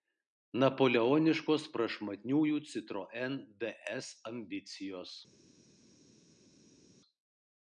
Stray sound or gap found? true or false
false